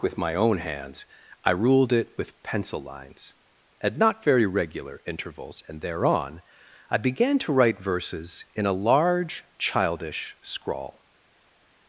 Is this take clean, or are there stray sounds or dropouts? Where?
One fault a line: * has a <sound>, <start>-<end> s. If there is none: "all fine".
all fine